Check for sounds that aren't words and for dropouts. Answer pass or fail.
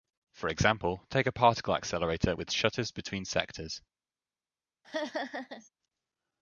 fail